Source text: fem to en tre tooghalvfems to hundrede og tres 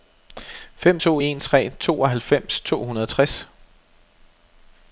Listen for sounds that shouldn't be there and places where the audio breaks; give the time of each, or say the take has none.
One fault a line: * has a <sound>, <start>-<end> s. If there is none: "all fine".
all fine